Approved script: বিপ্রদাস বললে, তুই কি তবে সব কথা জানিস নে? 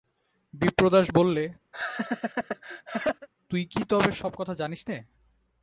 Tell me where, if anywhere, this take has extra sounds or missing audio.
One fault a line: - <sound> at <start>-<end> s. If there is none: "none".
- laugh at 1.7-3.3 s